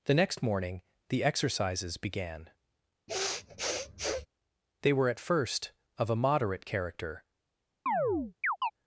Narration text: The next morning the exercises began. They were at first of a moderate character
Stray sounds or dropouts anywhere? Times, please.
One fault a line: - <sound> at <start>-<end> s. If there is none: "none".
- sniff at 3.1-4.3 s
- chirp at 7.9-8.7 s